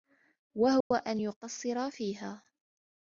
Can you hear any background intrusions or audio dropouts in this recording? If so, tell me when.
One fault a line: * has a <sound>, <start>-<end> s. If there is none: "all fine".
* has a dropout, 0.8-0.9 s